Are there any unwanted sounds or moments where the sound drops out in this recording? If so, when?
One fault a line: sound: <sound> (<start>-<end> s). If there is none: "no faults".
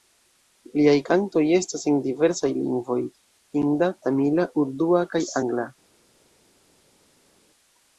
no faults